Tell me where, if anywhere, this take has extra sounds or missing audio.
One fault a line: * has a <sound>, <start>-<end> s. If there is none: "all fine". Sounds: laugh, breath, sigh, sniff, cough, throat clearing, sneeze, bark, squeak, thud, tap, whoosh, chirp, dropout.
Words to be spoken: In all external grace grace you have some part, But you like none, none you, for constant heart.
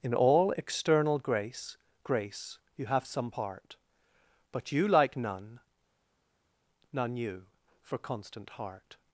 all fine